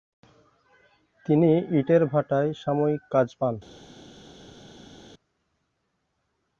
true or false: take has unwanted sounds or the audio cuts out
false